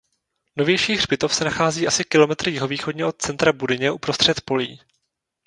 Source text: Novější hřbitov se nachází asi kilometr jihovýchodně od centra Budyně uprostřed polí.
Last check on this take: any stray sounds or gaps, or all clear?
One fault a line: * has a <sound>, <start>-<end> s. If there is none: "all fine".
all fine